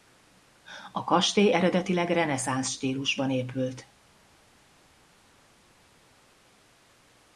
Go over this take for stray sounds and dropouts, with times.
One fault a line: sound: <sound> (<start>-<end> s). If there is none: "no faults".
no faults